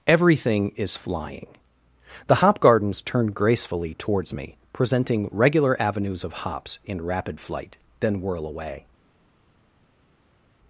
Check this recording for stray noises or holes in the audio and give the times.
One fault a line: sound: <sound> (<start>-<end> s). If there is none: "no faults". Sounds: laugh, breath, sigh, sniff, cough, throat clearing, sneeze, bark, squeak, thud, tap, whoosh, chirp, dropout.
no faults